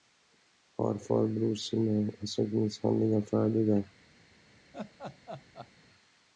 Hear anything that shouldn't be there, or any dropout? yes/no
yes